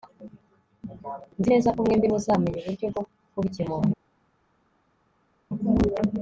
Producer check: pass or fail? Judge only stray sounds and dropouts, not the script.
pass